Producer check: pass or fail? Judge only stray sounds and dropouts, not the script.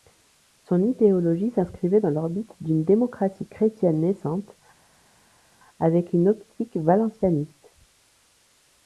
pass